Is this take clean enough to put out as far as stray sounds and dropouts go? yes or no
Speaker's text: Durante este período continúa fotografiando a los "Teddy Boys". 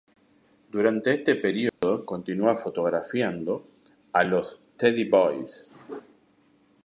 no